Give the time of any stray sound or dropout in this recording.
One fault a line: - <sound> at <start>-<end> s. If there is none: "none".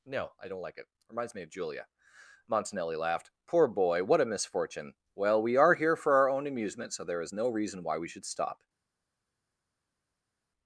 none